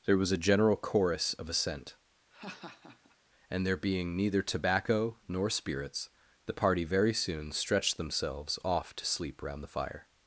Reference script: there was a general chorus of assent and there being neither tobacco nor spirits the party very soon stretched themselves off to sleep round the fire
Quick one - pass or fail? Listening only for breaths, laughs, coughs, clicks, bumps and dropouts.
fail